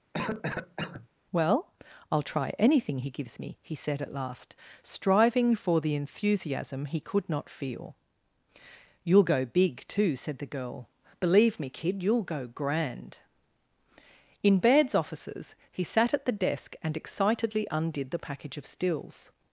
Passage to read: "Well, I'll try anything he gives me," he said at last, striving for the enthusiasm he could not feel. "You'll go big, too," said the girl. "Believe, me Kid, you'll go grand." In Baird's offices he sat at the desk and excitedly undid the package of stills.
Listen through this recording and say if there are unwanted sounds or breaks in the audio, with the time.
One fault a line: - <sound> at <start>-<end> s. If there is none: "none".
- cough at 0.1-1.1 s